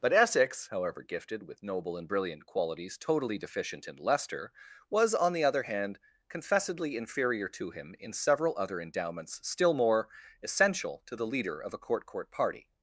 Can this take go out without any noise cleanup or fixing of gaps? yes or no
yes